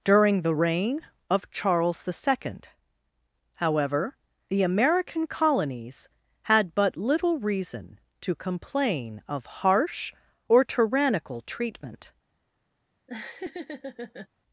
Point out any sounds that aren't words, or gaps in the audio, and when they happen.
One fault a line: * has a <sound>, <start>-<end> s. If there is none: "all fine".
* has a laugh, 13.1-14.3 s